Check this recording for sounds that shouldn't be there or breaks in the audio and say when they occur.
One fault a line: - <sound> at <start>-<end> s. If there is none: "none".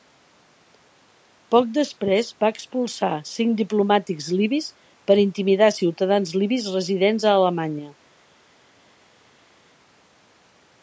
none